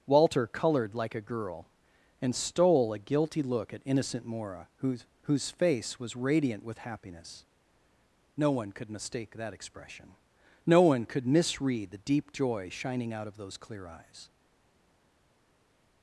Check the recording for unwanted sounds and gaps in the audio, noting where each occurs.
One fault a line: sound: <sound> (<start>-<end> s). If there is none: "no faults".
no faults